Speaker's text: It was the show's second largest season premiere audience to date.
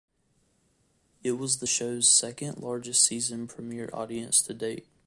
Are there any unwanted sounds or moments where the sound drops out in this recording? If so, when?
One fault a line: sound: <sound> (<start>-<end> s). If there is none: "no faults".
no faults